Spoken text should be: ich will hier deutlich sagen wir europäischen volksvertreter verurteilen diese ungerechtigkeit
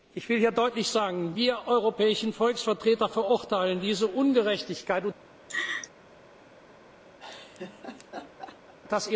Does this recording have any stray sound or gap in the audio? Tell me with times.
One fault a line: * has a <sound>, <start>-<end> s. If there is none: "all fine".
* has a laugh, 5.5-5.9 s
* has a laugh, 7.2-8.7 s